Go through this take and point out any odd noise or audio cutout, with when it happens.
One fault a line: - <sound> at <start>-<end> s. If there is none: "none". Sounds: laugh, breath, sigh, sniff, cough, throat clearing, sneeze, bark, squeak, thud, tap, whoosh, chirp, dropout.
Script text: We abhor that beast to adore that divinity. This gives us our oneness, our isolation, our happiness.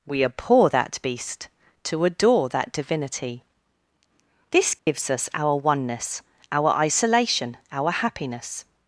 - dropout at 4.8-4.9 s